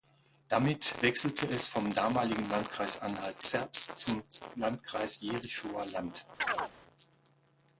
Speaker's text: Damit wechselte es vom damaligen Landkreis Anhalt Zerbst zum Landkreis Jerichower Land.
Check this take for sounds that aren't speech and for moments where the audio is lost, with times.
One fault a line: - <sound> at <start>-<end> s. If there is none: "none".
- chirp at 6.4-6.7 s